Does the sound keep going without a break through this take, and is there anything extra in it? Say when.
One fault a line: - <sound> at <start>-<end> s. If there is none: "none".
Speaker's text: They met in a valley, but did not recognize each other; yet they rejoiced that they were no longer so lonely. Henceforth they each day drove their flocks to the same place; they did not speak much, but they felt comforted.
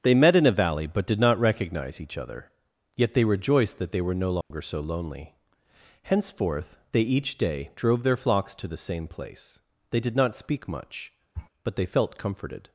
- dropout at 4.4-4.5 s
- sniff at 11.4-11.5 s